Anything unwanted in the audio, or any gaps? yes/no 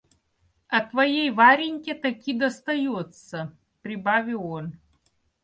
no